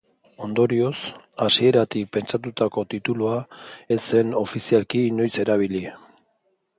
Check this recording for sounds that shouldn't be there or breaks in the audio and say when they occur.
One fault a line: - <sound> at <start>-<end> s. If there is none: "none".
none